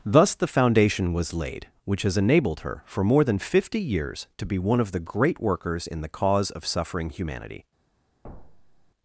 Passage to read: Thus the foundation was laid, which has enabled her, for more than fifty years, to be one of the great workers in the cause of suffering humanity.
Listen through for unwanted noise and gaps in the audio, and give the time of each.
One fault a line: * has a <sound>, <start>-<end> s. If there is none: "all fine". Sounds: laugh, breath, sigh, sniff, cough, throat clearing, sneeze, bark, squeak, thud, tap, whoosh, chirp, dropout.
* has a thud, 8.2-8.9 s